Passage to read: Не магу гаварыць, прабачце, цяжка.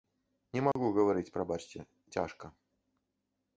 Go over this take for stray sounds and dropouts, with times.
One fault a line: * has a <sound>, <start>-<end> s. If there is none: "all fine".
* has a dropout, 0.7-0.8 s